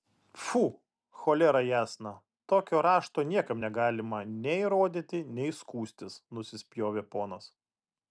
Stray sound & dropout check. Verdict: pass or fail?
pass